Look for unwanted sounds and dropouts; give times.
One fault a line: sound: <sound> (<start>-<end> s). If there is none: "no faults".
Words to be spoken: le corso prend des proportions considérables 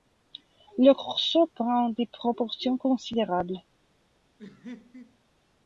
sound: laugh (4.4-5.2 s)